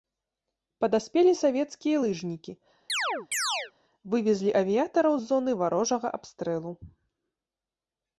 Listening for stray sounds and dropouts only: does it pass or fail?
fail